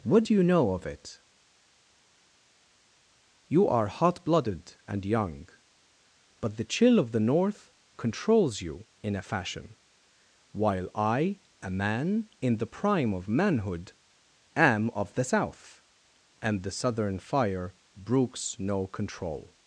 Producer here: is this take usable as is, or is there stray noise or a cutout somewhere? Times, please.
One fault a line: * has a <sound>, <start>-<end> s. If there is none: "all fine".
all fine